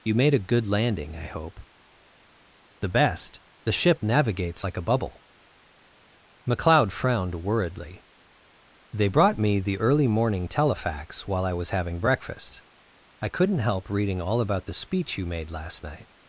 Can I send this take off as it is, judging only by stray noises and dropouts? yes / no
yes